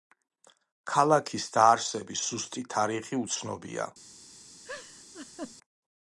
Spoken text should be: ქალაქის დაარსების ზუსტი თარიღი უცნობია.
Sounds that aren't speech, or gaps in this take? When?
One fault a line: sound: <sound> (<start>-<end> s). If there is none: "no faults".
sound: laugh (4.6-5.6 s)